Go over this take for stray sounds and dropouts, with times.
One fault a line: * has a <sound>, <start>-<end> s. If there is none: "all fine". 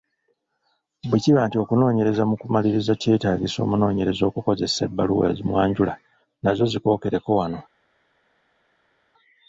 all fine